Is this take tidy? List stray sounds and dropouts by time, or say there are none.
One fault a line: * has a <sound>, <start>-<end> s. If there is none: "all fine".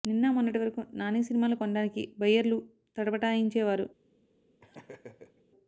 * has a laugh, 4.6-5.4 s